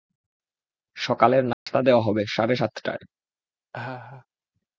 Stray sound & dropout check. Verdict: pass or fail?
fail